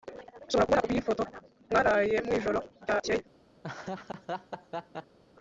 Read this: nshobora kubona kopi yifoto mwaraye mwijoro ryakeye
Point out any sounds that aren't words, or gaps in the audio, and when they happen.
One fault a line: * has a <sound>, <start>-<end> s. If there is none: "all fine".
* has a laugh, 3.6-5.2 s